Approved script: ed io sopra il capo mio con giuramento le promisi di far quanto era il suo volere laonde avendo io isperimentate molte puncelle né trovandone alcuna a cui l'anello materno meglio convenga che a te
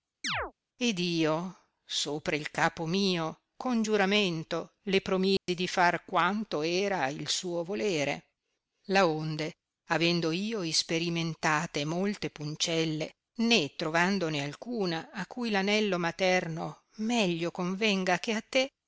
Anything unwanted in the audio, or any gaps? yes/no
yes